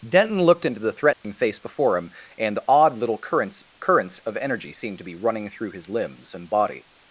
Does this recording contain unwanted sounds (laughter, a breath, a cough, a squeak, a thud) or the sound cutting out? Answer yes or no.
yes